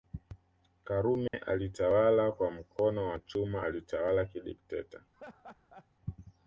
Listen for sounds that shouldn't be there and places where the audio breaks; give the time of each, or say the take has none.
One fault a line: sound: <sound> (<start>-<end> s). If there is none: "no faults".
sound: dropout (1.3-1.3 s)
sound: laugh (5.1-5.9 s)